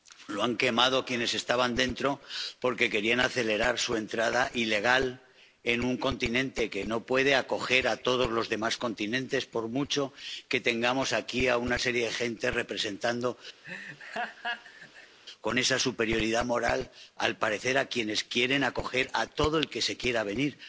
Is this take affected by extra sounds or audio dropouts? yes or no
yes